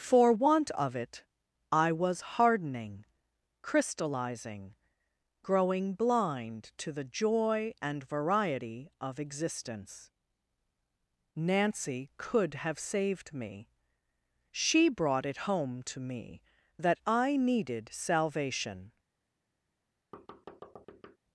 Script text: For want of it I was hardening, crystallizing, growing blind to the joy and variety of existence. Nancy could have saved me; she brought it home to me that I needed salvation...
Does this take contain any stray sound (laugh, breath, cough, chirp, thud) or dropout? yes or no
yes